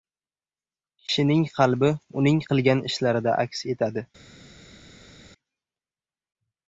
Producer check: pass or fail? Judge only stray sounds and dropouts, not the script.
pass